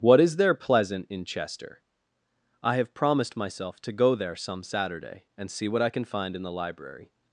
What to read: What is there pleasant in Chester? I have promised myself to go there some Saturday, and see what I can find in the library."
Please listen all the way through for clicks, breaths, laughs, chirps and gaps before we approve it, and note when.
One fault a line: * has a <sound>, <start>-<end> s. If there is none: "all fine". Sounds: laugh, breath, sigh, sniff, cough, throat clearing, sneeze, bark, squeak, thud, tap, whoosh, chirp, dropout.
all fine